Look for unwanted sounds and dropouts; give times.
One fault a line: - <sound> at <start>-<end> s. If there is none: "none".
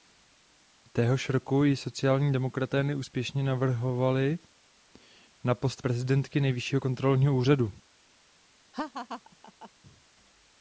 - laugh at 8.7-9.7 s